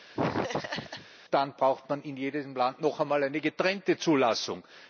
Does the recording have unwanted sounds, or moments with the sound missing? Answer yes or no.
yes